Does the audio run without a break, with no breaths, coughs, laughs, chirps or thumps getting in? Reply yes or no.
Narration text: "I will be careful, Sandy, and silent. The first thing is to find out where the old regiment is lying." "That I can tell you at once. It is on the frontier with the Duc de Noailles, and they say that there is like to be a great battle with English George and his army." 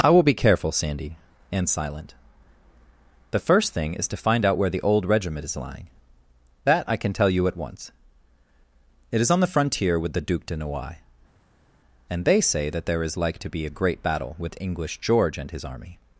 yes